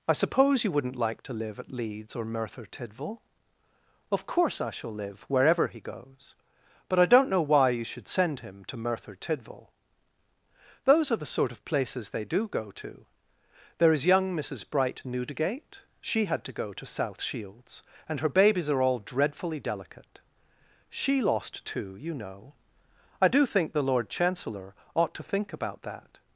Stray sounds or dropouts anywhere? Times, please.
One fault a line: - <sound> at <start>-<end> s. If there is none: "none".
none